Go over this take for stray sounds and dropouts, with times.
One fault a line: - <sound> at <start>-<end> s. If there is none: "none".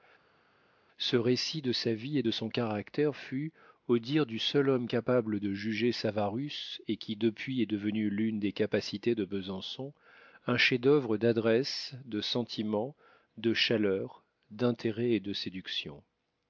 none